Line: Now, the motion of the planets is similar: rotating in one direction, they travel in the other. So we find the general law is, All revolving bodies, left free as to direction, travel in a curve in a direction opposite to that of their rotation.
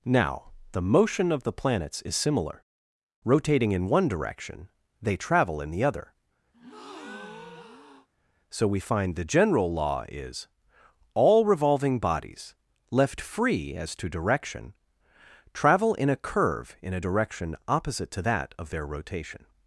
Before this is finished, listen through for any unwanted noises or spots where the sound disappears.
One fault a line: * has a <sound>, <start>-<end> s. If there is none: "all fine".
* has a breath, 6.5-8.1 s